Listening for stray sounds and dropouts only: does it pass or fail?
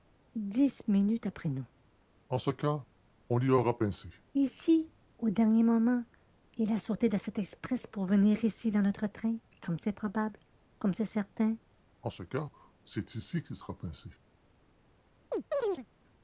fail